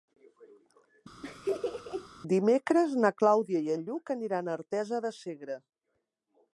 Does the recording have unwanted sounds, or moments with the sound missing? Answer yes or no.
yes